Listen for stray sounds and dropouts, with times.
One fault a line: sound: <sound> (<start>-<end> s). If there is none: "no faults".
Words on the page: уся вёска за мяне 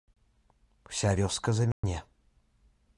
sound: dropout (1.7-1.8 s)